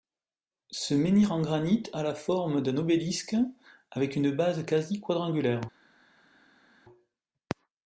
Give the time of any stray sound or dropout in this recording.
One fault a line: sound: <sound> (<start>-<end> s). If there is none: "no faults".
no faults